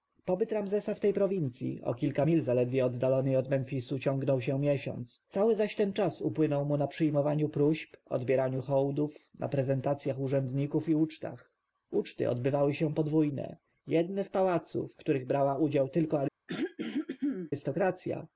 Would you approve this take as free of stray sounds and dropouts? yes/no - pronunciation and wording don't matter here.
no